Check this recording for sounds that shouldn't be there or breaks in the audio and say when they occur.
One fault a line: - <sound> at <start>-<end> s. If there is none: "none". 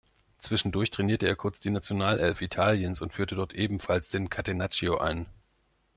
none